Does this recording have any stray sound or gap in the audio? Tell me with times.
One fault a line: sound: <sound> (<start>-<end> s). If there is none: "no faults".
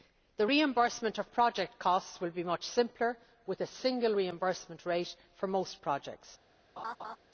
sound: laugh (6.8-7.2 s)